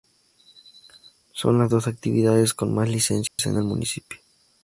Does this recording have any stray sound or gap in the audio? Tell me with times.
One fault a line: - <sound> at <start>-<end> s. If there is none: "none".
- dropout at 3.3-3.4 s